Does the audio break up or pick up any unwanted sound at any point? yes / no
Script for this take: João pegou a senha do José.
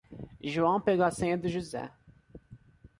no